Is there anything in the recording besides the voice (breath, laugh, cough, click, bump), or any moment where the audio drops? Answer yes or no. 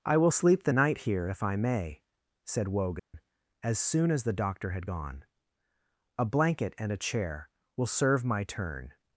yes